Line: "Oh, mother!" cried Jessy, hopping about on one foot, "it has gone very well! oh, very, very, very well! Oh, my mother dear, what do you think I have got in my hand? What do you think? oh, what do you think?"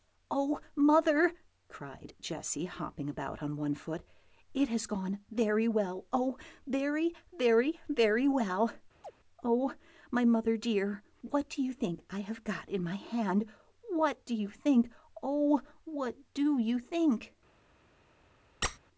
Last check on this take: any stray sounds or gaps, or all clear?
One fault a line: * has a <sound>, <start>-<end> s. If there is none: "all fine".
* has a chirp, 9.0-9.1 s
* has a squeak, 18.6-18.8 s